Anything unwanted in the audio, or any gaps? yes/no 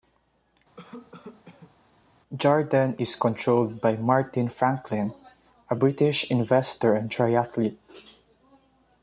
yes